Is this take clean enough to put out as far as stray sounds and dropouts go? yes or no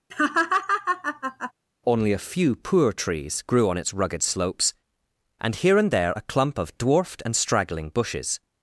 no